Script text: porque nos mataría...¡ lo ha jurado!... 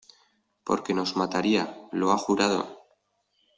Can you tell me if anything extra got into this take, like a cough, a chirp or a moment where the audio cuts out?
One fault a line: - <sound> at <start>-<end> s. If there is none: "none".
none